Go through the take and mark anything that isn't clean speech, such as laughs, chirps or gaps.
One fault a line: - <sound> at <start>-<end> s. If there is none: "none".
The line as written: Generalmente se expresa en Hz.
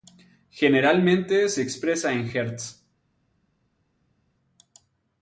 none